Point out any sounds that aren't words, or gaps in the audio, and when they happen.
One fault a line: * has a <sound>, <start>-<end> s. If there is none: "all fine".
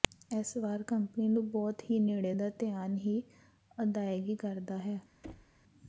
* has a thud, 5.2-5.6 s